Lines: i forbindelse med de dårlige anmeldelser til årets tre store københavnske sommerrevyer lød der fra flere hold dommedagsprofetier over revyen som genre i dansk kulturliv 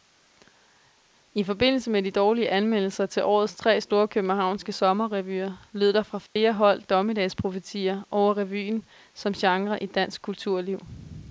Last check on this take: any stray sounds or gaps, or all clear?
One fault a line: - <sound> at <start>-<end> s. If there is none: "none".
- dropout at 6.3-6.4 s